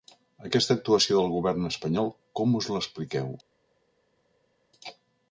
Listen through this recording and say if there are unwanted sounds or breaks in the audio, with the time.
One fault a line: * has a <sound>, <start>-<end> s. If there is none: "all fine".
all fine